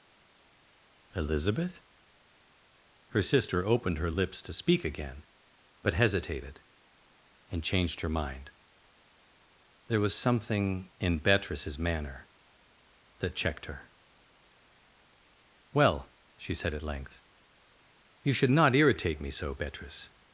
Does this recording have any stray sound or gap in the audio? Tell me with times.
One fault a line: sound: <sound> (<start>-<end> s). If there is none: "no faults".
no faults